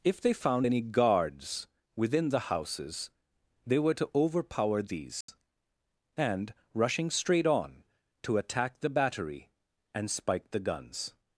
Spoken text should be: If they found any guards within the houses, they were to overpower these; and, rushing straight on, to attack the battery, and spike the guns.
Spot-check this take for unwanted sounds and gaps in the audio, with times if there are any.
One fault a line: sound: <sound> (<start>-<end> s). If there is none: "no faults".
sound: dropout (5.2-5.3 s)